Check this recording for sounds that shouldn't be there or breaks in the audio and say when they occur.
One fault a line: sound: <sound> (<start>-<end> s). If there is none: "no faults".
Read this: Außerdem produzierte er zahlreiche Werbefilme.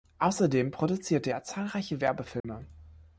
sound: dropout (2.4-2.4 s)